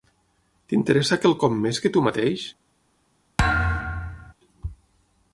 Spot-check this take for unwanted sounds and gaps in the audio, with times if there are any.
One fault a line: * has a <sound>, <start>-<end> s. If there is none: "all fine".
* has a thud, 3.4-4.3 s